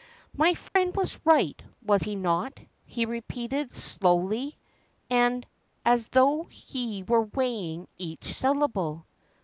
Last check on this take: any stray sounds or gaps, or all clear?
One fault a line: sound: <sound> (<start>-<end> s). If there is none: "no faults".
sound: dropout (0.7-0.8 s)